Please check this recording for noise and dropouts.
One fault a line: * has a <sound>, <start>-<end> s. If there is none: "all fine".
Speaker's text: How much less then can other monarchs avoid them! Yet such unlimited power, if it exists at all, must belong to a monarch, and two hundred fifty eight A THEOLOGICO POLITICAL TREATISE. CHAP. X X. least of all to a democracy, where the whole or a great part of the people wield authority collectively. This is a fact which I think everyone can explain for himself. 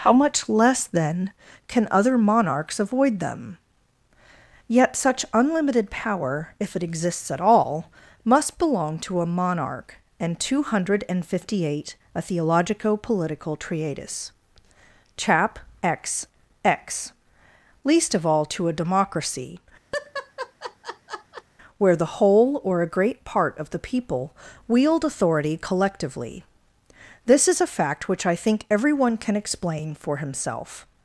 * has a laugh, 19.9-21.4 s